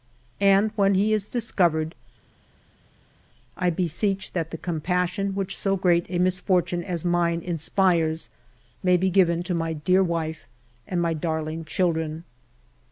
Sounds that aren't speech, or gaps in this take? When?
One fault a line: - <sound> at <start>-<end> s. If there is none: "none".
none